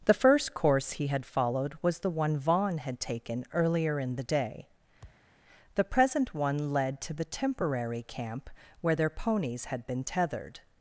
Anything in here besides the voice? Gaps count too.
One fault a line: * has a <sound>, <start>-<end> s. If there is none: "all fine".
* has a thud, 5.0-5.3 s